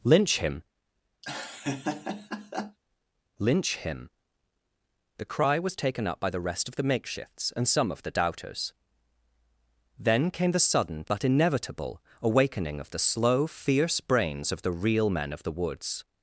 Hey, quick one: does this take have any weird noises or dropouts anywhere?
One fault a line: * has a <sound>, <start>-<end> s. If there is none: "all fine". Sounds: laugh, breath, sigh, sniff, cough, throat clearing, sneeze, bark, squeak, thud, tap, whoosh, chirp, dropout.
* has a laugh, 1.2-2.8 s